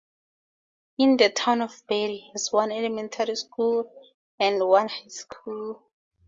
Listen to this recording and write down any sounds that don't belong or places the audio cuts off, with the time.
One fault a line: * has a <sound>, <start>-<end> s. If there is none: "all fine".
all fine